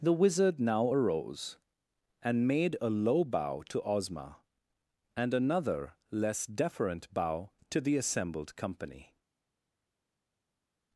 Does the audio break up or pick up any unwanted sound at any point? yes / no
no